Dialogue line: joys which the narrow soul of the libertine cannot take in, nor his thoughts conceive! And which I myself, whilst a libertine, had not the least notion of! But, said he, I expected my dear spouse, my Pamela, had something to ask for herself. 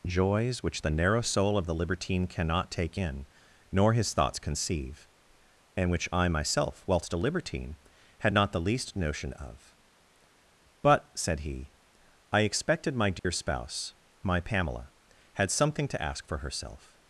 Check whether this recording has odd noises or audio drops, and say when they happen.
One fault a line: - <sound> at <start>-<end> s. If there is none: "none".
- dropout at 13.2-13.2 s